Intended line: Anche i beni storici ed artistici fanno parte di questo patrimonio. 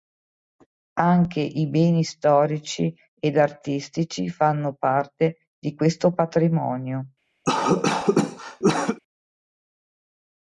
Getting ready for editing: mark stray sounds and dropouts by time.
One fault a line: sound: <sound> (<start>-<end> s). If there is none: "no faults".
sound: cough (7.4-9.0 s)